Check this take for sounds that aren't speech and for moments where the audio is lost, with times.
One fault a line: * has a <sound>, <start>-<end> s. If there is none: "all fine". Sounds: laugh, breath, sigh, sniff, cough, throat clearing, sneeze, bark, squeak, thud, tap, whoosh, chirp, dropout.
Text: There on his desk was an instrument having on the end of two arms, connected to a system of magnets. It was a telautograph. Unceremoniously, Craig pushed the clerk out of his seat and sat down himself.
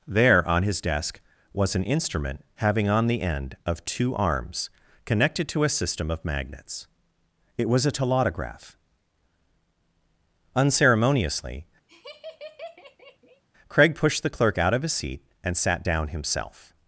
* has a laugh, 11.9-13.4 s